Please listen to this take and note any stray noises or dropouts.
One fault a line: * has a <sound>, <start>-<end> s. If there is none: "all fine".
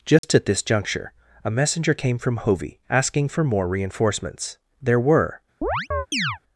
* has a dropout, 0.2-0.2 s
* has a chirp, 5.6-6.4 s